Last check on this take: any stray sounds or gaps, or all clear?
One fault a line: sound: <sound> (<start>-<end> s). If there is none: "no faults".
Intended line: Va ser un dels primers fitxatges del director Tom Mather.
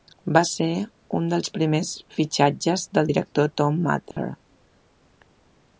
sound: dropout (4.1-4.2 s)